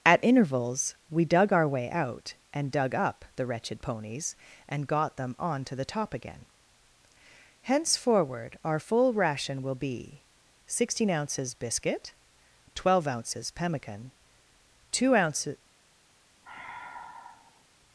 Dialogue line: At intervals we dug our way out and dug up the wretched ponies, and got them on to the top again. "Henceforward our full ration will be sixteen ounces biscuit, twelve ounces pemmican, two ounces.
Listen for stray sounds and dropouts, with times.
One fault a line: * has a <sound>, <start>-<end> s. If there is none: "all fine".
* has a sigh, 16.4-17.6 s